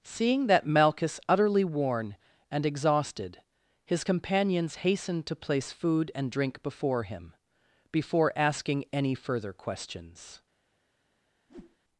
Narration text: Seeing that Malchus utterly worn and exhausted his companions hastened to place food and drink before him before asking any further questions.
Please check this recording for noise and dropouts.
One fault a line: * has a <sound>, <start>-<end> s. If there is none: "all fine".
* has a whoosh, 11.5-11.8 s